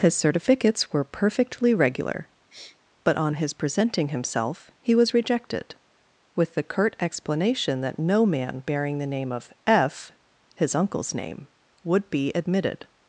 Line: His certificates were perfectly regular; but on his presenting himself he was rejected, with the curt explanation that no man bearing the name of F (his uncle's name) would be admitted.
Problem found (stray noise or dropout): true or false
true